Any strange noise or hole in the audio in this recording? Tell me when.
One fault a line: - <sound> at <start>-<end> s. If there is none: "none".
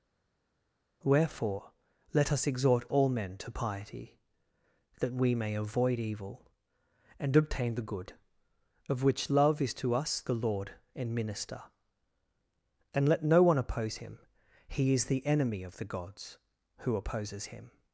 none